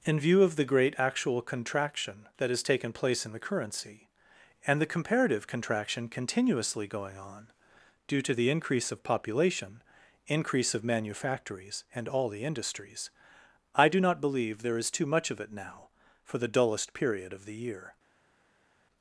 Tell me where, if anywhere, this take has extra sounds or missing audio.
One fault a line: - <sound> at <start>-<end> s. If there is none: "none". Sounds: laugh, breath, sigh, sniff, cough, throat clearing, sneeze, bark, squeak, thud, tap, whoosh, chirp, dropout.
none